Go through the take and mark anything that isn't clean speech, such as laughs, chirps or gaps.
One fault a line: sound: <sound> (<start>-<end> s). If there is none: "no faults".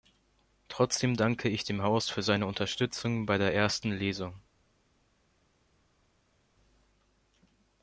no faults